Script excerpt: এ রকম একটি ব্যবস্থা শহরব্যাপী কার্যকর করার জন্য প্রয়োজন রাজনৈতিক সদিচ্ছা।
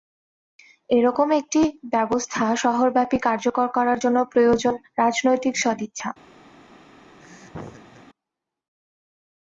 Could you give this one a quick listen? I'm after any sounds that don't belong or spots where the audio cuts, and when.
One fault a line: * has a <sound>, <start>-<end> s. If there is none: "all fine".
* has a laugh, 7.2-8.0 s